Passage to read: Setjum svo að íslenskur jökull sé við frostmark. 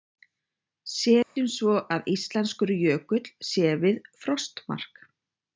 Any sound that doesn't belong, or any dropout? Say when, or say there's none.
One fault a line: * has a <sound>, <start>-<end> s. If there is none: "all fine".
* has a dropout, 1.2-1.4 s